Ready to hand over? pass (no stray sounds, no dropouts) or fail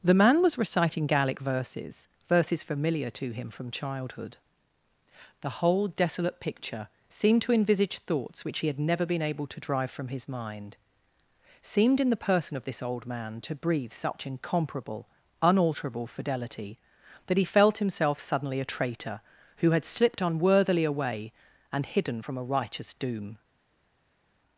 pass